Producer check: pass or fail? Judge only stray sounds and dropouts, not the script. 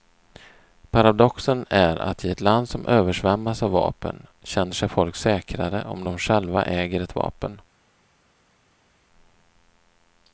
pass